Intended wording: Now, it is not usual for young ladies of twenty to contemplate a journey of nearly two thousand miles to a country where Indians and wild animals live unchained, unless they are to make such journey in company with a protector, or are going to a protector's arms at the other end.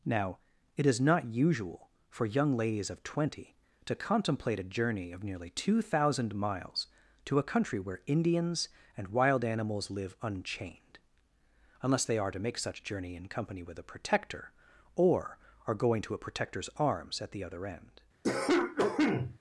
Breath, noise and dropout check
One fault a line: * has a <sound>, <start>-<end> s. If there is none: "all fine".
* has a cough, 18.2-19.4 s